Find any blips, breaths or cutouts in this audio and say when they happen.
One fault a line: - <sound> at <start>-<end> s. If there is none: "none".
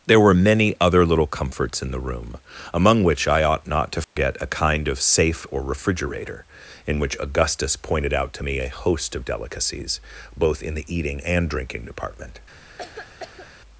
- dropout at 4.0-4.2 s
- cough at 12.8-13.5 s